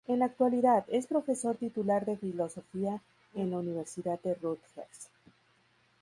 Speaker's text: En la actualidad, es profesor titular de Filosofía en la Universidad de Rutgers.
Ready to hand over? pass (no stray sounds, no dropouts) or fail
pass